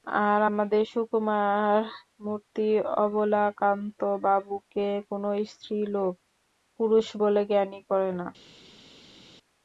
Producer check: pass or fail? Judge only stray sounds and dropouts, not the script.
pass